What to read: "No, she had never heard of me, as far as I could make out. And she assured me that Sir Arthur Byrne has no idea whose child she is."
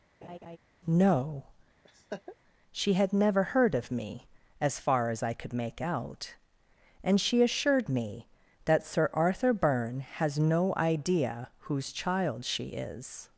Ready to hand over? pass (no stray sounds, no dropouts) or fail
fail